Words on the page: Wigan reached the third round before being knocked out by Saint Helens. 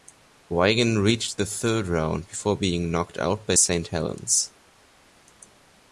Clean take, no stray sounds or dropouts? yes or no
yes